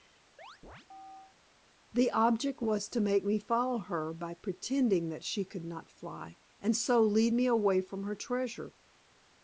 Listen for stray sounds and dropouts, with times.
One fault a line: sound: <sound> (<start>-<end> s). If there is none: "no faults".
sound: chirp (0.4-1.4 s)